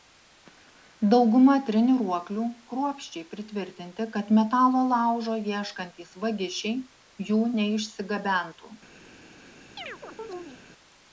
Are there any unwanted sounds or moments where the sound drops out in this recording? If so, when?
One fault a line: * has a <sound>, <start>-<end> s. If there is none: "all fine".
* has a chirp, 9.8-10.6 s